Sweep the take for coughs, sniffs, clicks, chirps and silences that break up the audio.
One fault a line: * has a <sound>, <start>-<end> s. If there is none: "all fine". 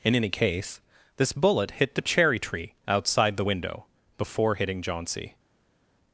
all fine